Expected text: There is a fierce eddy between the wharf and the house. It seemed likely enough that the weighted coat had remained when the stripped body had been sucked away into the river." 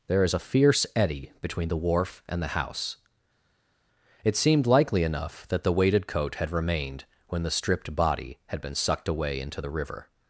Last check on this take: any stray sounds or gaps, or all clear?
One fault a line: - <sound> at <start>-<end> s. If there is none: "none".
none